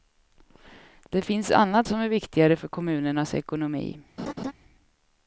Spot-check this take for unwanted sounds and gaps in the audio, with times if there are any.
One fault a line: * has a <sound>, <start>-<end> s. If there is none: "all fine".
* has a laugh, 4.2-4.5 s